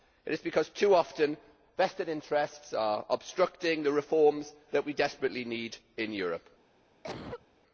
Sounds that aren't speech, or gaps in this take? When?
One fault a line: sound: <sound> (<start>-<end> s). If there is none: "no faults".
sound: cough (7.0-7.5 s)